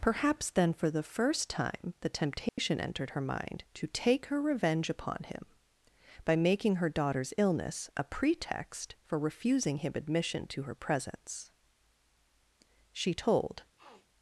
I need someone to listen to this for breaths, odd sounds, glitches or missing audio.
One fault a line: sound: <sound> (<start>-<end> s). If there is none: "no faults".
sound: dropout (2.5-2.6 s)
sound: sniff (13.8-14.1 s)